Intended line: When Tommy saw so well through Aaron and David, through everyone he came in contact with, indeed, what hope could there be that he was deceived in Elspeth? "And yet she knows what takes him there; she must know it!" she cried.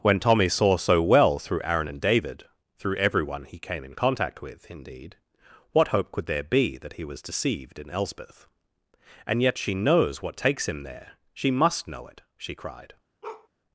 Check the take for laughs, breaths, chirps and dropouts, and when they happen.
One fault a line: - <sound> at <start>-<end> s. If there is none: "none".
- bark at 13.2-13.5 s